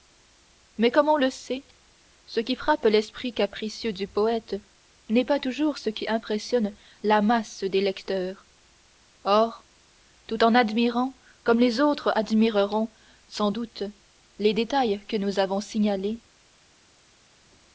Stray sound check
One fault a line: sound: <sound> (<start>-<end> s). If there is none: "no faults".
no faults